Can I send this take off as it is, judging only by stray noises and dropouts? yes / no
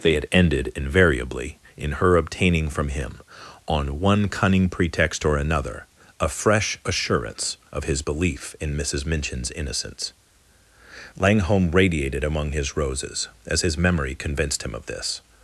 yes